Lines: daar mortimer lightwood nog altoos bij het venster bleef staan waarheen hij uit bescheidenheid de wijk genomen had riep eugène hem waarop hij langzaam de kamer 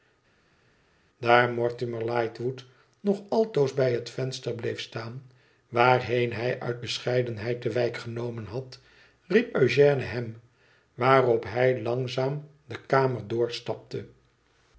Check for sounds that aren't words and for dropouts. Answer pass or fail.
pass